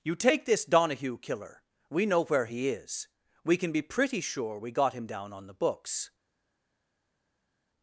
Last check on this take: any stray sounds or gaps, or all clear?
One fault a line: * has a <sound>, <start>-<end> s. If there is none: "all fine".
all fine